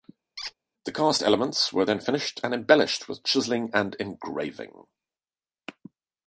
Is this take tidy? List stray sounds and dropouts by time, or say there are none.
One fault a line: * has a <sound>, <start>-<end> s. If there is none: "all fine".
* has a squeak, 0.4-0.5 s